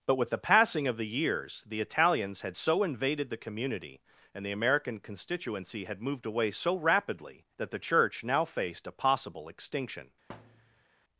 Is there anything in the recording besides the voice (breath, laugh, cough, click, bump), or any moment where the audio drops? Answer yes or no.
yes